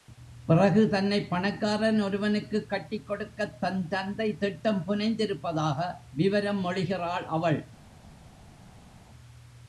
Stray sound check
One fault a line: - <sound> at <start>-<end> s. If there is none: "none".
none